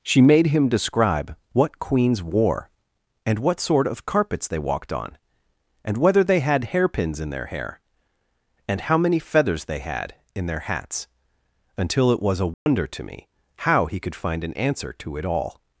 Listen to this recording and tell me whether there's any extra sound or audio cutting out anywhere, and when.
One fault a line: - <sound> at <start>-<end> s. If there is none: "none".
- dropout at 12.5-12.7 s